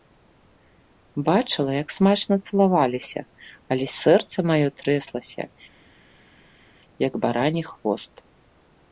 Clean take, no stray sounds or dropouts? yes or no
yes